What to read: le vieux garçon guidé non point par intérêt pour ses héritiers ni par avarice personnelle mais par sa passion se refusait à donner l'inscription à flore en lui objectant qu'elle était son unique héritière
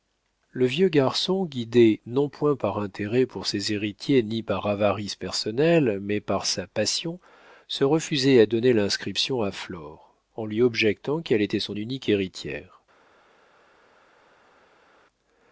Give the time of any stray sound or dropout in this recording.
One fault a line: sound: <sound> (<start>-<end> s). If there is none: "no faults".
no faults